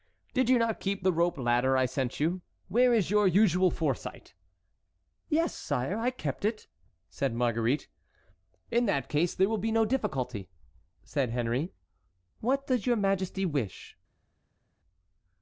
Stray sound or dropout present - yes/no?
no